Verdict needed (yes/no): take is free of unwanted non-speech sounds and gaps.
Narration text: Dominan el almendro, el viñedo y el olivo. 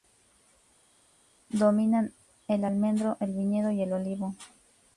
yes